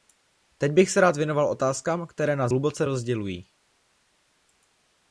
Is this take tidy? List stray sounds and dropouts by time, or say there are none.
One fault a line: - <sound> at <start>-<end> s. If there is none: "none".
none